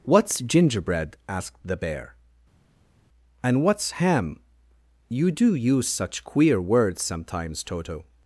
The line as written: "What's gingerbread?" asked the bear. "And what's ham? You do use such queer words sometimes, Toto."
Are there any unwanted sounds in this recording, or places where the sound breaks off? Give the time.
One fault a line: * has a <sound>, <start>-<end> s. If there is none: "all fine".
all fine